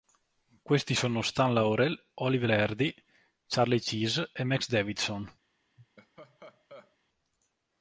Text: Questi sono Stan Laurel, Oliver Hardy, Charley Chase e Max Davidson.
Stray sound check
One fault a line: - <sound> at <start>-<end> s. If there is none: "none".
- laugh at 5.8-7.0 s